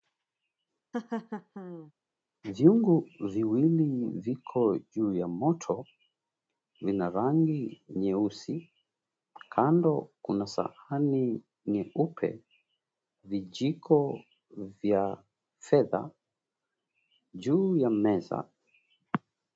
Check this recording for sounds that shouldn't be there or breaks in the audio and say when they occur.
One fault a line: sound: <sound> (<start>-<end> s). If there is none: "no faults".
sound: laugh (0.9-1.9 s)